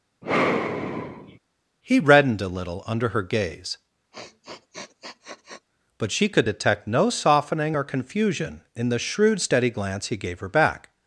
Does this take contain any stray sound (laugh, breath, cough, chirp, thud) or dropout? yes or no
yes